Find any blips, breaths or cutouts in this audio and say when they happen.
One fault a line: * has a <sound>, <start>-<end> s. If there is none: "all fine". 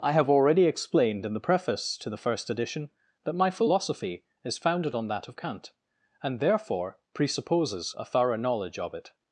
all fine